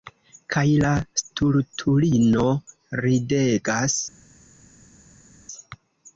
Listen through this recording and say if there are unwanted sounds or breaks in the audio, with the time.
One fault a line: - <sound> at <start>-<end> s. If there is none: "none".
none